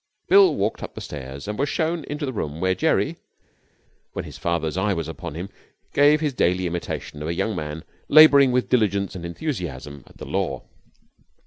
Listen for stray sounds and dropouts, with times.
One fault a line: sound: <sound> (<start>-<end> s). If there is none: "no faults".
no faults